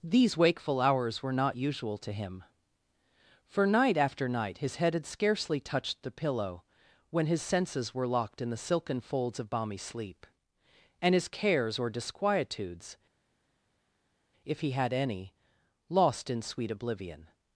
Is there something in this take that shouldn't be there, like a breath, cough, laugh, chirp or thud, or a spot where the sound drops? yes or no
no